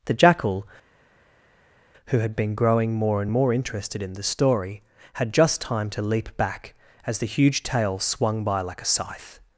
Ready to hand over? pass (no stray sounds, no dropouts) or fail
pass